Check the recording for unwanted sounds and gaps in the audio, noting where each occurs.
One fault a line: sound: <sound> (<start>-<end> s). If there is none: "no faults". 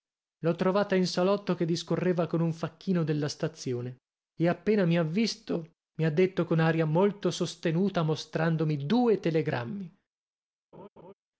sound: laugh (10.7-11.1 s)